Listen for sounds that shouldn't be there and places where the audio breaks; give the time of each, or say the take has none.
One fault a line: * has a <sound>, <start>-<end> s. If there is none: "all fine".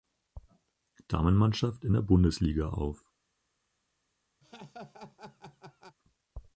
* has a laugh, 4.4-6.0 s